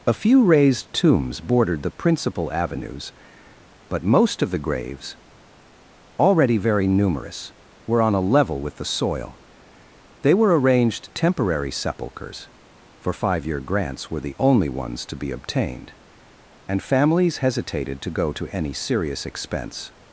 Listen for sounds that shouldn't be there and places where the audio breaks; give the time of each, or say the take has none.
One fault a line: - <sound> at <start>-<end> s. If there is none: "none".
none